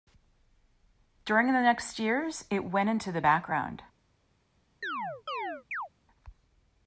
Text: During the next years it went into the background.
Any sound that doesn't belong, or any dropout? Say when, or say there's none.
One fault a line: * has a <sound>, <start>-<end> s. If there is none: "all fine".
* has a chirp, 4.8-5.9 s